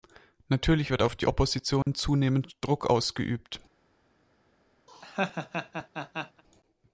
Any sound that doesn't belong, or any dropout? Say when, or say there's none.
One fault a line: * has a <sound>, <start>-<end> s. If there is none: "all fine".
* has a dropout, 1.8-1.9 s
* has a laugh, 4.9-6.4 s